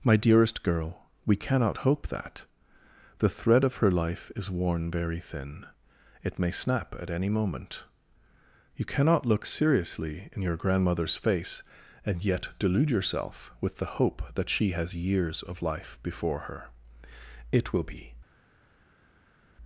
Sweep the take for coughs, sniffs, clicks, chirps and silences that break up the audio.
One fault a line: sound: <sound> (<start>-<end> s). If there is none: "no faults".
no faults